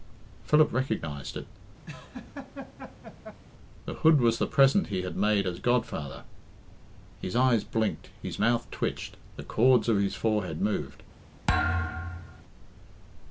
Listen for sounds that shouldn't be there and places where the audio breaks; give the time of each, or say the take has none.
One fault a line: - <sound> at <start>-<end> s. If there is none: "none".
- laugh at 1.9-3.4 s
- thud at 11.5-12.4 s